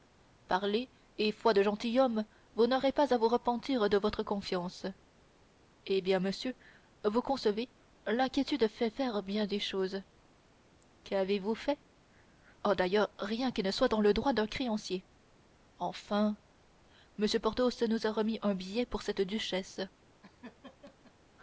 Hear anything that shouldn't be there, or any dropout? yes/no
yes